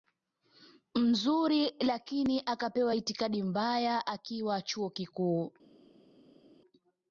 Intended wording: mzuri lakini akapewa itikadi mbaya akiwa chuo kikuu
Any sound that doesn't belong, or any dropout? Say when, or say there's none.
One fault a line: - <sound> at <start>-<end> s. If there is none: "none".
none